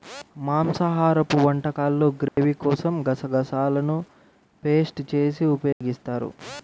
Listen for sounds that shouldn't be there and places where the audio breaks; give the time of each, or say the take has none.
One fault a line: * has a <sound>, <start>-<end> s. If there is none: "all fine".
* has a dropout, 2.3-2.4 s
* has a dropout, 5.7-5.8 s